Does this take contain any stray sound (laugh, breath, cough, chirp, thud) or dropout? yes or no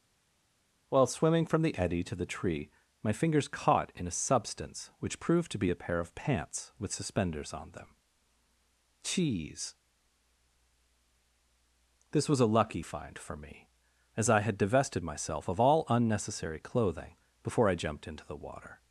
no